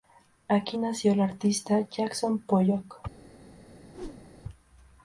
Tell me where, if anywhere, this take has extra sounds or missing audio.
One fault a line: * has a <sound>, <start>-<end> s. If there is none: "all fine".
* has a whoosh, 3.9-4.4 s